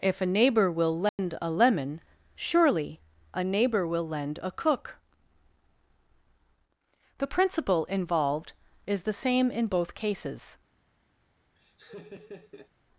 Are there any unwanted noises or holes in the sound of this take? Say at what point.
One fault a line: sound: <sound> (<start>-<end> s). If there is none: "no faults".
sound: dropout (1.1-1.2 s)
sound: laugh (11.6-12.7 s)